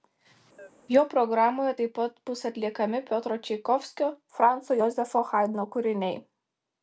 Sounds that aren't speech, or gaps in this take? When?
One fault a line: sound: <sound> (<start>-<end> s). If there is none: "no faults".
sound: chirp (0.6-0.7 s)